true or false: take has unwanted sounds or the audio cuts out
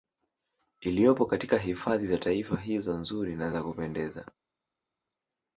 false